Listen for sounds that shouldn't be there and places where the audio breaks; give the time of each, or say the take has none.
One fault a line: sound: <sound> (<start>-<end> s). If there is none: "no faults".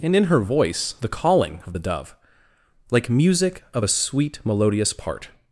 no faults